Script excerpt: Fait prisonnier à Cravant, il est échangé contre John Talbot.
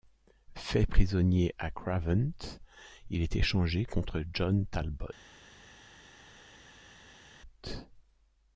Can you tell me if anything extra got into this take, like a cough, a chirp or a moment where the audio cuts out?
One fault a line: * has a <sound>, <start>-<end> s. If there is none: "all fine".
all fine